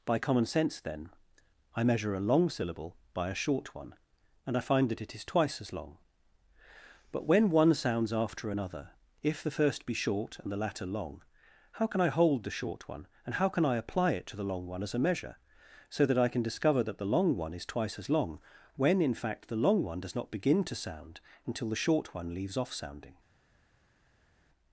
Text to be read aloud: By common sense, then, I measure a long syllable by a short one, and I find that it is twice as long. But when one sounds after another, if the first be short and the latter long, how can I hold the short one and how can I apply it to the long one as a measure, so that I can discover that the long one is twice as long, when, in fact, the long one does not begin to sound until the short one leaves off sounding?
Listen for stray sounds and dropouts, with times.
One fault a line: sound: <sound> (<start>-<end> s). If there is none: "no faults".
no faults